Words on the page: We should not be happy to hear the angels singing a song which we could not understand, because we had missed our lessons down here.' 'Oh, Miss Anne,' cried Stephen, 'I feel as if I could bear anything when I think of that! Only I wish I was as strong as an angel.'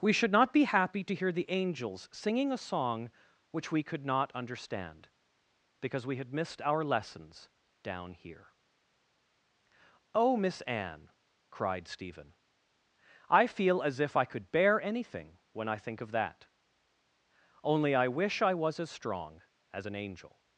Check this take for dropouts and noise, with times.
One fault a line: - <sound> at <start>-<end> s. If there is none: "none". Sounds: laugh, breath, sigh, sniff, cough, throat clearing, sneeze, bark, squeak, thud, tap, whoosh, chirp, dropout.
none